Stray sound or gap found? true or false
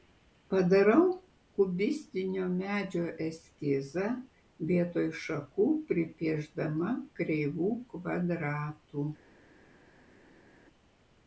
false